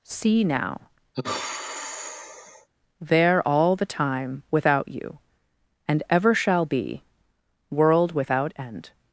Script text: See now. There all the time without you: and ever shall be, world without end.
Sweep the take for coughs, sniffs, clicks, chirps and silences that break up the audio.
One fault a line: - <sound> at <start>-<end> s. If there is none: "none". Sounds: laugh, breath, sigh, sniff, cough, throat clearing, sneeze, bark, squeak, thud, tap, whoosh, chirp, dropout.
- sigh at 1.1-2.7 s